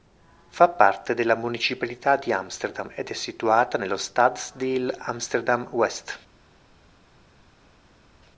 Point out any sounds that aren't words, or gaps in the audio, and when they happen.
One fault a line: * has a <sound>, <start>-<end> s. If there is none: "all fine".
all fine